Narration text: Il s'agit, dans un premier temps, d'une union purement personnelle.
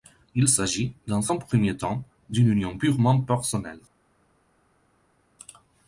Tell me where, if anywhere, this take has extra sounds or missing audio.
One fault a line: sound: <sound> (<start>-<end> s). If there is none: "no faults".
no faults